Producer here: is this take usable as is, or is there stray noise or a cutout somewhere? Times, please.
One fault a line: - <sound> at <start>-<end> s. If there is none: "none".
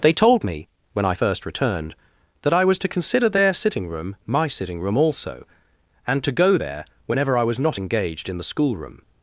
none